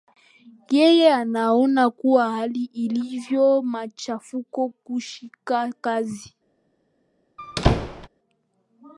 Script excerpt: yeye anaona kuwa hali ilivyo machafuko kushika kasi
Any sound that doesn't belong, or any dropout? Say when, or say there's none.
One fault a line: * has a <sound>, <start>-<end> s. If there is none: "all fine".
* has a squeak, 7.4-8.1 s